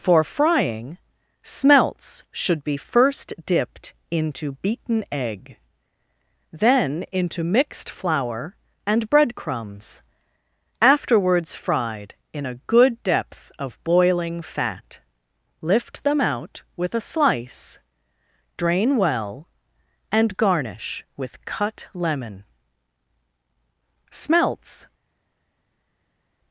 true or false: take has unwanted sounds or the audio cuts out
false